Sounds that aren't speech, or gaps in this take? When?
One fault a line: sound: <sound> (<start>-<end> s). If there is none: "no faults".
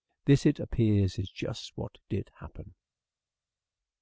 no faults